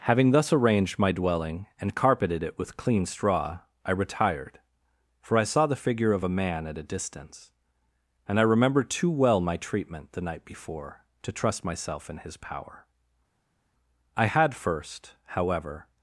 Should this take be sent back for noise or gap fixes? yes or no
no